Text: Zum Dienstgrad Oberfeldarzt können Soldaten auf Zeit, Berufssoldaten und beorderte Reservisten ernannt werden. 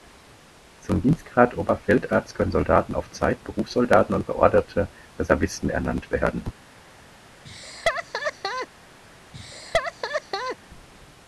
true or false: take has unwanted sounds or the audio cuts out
true